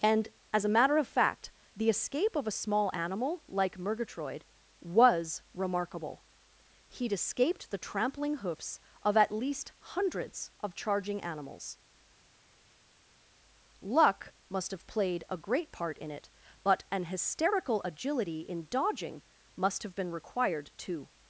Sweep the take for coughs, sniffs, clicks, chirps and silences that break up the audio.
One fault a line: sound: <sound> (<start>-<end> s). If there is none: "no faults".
no faults